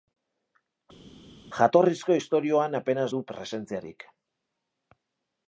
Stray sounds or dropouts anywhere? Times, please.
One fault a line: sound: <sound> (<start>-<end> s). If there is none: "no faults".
no faults